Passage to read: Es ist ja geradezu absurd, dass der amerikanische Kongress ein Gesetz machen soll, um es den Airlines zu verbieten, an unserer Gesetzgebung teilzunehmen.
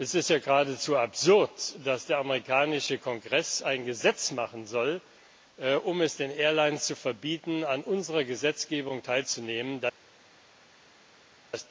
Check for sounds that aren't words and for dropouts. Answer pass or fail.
pass